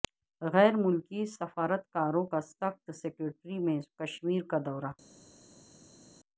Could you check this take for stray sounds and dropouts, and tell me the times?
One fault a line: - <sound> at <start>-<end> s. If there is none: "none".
none